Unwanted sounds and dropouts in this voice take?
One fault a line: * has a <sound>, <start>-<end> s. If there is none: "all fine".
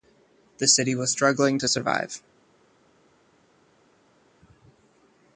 all fine